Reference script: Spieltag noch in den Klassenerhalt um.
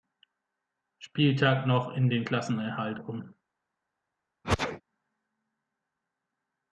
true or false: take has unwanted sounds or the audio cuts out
true